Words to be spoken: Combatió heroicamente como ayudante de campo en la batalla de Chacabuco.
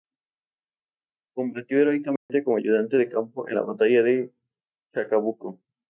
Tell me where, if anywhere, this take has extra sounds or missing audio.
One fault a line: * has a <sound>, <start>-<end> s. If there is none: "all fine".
* has a dropout, 2.2-2.3 s